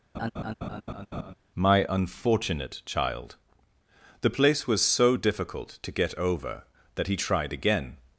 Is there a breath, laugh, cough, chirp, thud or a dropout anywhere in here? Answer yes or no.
yes